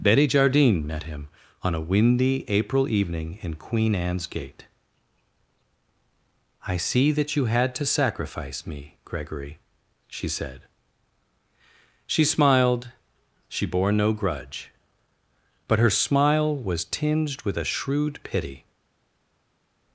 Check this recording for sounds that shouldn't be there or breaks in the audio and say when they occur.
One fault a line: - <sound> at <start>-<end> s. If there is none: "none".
none